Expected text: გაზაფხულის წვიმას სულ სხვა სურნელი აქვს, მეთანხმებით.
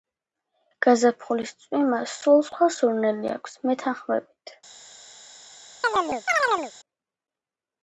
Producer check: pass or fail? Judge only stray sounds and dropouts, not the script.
fail